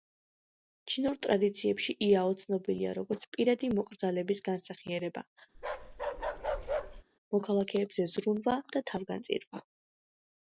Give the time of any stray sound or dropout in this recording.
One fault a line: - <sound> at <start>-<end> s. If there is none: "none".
- bark at 5.5-7.0 s